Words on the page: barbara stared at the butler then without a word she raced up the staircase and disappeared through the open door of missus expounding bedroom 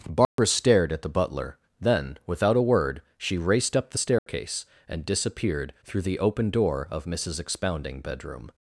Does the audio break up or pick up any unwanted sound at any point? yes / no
yes